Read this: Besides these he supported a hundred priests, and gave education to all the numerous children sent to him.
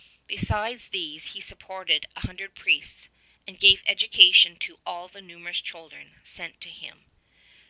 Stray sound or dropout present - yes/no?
no